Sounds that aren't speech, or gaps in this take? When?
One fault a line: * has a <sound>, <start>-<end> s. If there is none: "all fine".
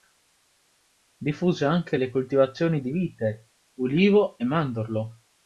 all fine